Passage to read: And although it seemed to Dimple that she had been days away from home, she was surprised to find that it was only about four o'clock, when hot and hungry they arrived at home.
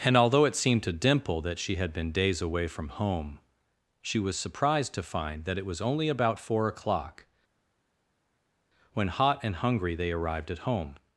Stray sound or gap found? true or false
false